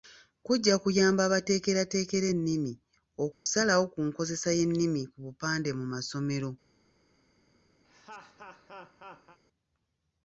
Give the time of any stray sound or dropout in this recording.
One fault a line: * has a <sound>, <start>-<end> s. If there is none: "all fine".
* has a dropout, 3.3-3.5 s
* has a laugh, 7.8-9.4 s